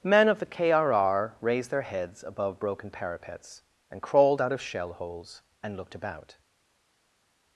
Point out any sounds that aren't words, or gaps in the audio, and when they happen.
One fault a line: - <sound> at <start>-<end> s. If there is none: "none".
none